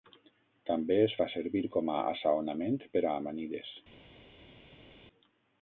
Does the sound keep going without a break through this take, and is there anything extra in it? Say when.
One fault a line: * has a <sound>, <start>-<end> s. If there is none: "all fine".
all fine